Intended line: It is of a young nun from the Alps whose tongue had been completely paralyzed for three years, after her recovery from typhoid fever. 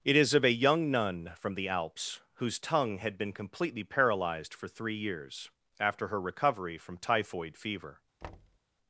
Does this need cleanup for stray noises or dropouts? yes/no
yes